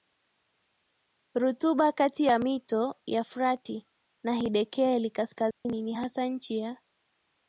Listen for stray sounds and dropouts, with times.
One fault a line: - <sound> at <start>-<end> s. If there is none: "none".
- dropout at 5.5-5.7 s